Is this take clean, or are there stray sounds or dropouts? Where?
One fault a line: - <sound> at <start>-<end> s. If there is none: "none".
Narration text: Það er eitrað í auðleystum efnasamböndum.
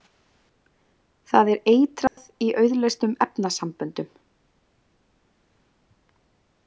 - dropout at 2.1-2.2 s